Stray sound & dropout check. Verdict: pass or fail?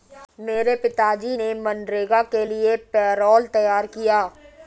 pass